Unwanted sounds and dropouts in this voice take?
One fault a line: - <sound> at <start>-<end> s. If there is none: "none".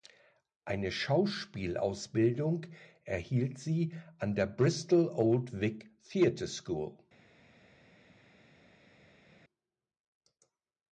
none